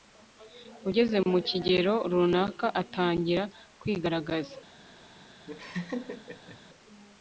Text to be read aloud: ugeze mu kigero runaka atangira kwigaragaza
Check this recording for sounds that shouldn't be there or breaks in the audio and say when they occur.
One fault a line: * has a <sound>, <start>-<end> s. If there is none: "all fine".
* has a laugh, 5.5-6.6 s